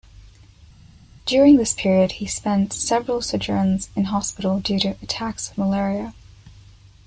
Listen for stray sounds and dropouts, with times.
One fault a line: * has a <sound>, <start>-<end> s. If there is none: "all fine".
all fine